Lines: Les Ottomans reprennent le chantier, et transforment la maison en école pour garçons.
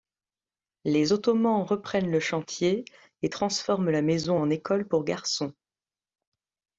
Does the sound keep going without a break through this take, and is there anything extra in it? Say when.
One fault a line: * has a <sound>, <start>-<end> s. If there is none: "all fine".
all fine